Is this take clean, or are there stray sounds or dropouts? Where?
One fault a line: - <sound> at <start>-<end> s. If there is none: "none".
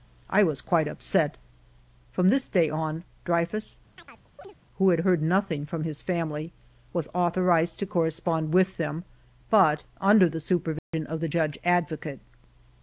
- chirp at 4.0-4.6 s
- dropout at 10.8-10.9 s